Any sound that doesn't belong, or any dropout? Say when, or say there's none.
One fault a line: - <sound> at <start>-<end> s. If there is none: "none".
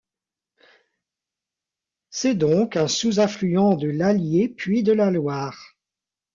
none